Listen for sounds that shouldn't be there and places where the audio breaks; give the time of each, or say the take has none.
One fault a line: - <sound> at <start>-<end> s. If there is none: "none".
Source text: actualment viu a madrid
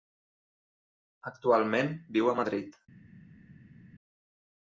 none